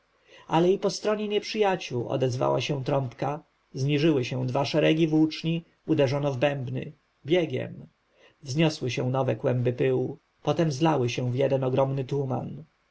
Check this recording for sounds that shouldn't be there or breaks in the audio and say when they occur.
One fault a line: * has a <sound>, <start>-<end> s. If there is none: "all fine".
all fine